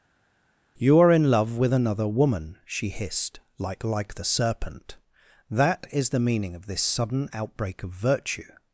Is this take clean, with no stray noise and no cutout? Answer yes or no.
yes